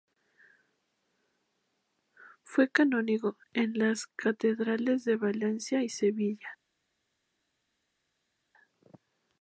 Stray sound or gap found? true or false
false